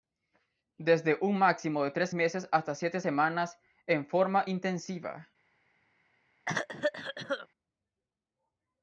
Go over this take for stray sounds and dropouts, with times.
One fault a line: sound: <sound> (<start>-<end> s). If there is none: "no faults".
sound: cough (6.5-7.5 s)